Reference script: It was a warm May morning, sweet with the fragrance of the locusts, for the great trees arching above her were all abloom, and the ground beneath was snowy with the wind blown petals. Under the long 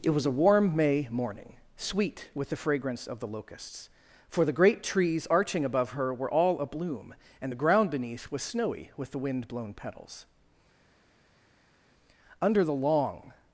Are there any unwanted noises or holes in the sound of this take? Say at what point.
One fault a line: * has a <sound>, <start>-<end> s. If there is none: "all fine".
all fine